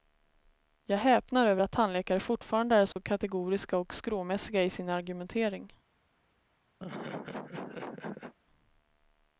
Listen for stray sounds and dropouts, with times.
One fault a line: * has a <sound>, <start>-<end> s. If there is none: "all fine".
* has a dropout, 2.9-3.0 s
* has a laugh, 6.8-8.3 s